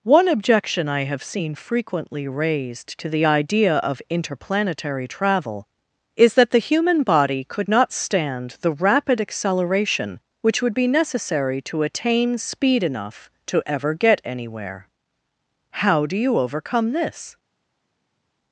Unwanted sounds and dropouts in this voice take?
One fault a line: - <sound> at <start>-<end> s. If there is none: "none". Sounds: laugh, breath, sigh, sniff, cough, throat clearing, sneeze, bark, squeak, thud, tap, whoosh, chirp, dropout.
none